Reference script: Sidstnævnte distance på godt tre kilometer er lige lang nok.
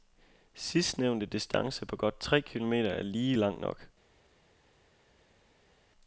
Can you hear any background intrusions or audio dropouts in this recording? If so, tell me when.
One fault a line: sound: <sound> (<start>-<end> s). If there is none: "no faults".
no faults